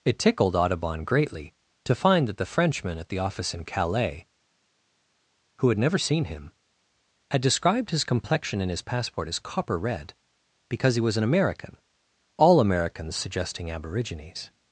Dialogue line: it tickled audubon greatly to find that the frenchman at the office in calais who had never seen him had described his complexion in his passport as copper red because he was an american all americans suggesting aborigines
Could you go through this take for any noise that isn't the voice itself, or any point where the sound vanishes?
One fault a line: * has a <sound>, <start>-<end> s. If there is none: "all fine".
all fine